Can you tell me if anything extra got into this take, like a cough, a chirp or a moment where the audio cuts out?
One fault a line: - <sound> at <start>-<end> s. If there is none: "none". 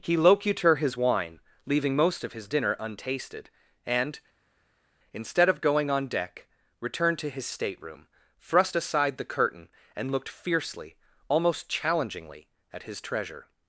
none